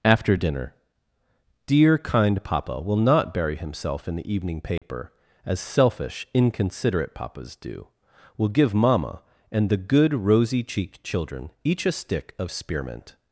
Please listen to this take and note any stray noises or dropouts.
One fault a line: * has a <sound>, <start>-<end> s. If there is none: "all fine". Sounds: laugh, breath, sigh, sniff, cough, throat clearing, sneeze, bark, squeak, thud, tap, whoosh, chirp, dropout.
* has a dropout, 4.8-4.8 s